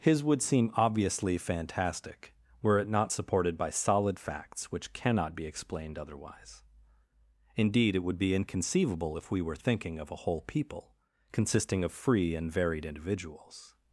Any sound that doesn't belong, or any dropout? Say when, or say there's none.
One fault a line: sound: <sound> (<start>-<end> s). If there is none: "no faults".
no faults